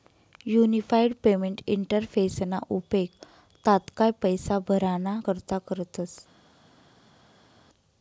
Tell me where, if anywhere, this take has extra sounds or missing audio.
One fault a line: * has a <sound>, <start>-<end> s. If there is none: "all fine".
all fine